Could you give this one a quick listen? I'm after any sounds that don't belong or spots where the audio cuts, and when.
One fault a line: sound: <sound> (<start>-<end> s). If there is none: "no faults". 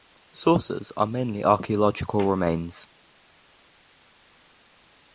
no faults